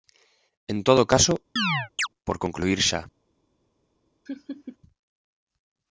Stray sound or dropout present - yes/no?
yes